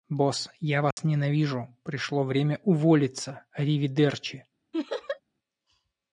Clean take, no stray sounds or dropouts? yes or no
no